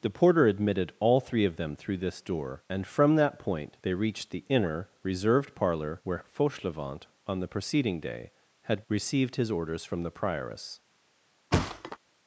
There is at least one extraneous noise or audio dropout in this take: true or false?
true